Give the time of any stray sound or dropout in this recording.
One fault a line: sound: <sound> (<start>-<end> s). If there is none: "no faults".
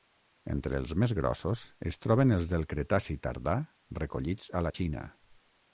no faults